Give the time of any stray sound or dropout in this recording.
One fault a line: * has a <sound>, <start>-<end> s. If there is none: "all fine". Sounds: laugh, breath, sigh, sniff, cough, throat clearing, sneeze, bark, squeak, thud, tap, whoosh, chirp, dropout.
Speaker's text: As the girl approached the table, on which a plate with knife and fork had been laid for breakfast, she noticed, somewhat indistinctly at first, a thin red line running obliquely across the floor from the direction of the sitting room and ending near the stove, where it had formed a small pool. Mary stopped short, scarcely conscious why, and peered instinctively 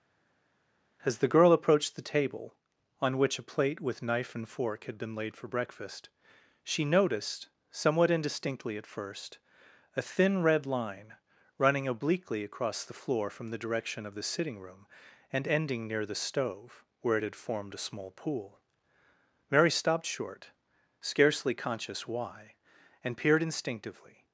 all fine